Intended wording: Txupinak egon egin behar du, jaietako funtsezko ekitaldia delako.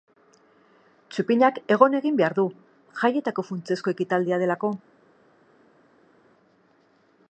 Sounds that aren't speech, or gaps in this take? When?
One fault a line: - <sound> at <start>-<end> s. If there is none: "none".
none